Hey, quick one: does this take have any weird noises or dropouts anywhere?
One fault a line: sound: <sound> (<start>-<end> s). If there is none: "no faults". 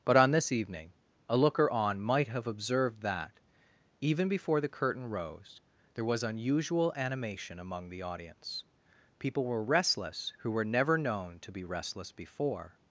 no faults